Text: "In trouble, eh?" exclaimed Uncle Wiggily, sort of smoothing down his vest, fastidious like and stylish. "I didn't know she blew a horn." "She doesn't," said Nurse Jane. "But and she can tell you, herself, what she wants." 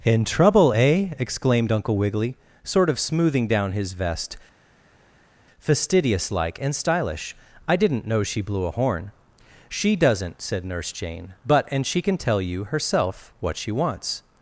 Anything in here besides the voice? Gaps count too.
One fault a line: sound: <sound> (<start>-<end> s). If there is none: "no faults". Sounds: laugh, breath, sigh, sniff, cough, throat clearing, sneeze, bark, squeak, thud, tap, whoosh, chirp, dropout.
no faults